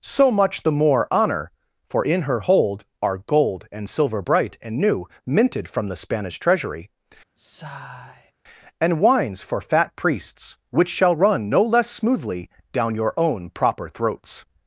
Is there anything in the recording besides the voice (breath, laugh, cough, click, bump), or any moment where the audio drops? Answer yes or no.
yes